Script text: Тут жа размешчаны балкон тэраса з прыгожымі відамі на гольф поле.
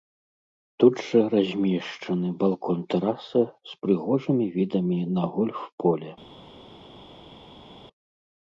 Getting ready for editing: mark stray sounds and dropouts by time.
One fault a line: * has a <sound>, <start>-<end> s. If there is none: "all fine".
all fine